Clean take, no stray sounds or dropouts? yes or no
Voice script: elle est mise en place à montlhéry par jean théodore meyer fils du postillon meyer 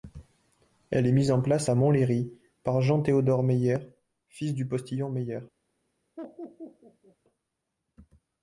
no